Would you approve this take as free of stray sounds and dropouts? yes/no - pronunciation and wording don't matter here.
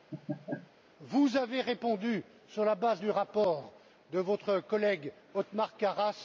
no